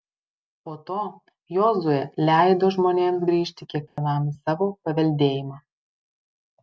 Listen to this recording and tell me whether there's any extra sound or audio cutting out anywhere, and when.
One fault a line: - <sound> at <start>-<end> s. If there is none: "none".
- dropout at 3.9-4.0 s